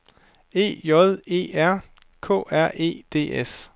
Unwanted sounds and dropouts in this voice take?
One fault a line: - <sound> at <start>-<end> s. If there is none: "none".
none